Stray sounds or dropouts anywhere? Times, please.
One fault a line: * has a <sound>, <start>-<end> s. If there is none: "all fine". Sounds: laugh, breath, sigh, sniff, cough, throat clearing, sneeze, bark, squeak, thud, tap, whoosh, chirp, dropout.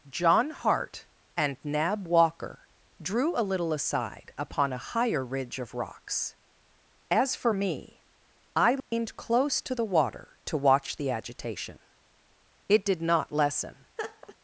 * has a dropout, 8.8-8.9 s
* has a laugh, 14.0-14.4 s